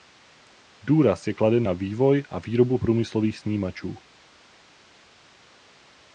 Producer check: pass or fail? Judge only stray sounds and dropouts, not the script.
pass